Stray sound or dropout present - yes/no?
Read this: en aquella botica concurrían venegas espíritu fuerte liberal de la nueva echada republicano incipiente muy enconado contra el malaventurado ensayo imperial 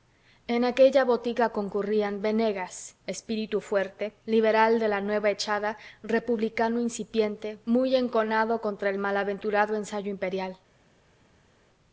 no